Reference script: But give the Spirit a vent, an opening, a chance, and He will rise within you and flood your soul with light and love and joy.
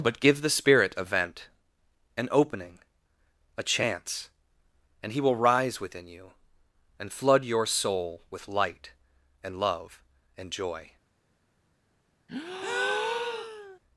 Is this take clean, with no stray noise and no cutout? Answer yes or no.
no